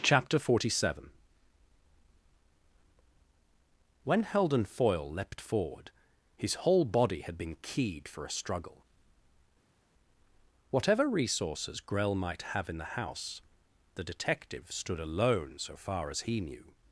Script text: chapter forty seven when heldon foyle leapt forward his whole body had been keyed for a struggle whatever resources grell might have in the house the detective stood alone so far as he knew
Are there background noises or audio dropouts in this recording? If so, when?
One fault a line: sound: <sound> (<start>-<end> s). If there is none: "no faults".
no faults